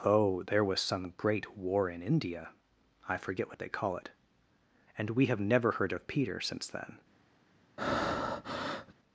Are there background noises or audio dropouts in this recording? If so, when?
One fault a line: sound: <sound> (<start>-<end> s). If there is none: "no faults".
sound: breath (7.8-8.9 s)